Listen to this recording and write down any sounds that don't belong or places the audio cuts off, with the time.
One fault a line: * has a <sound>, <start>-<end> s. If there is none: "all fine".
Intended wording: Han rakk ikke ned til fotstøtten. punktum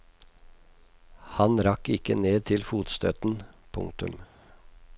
all fine